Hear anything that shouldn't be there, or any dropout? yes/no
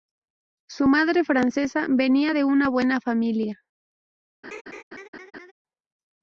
yes